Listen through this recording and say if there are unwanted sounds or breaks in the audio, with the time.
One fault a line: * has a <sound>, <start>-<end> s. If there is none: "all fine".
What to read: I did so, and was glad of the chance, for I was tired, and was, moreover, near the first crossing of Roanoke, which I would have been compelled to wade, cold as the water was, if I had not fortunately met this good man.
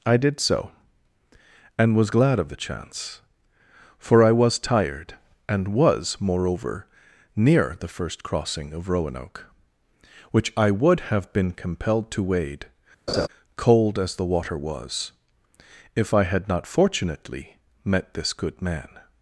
* has a laugh, 13.1-13.3 s